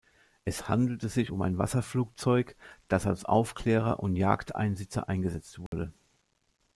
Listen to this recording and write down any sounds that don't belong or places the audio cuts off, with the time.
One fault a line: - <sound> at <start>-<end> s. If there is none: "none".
- dropout at 5.7-5.7 s